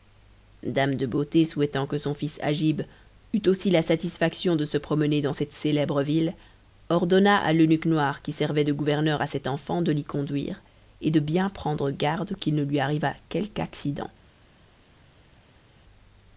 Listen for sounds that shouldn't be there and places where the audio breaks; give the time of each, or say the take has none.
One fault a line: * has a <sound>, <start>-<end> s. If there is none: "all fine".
all fine